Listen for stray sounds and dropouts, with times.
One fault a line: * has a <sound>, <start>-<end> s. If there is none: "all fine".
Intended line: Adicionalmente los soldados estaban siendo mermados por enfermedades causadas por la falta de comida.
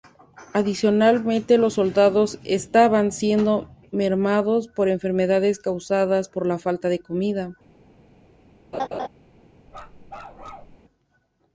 * has a laugh, 8.7-9.1 s
* has a bark, 9.7-10.8 s